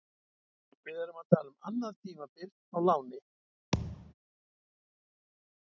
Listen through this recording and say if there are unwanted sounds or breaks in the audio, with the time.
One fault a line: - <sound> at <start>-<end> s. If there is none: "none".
- thud at 3.7-4.1 s